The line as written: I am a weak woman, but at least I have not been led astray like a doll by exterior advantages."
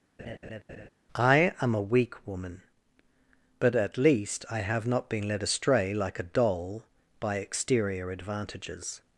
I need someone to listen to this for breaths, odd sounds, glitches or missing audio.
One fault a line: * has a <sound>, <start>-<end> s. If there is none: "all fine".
* has a laugh, 0.2-0.9 s